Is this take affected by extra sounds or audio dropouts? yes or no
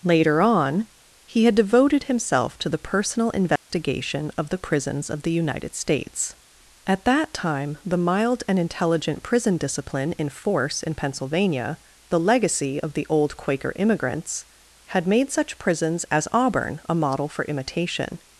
yes